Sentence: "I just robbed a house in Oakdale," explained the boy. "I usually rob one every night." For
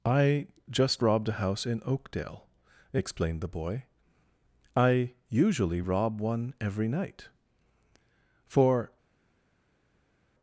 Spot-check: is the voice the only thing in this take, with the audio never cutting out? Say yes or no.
yes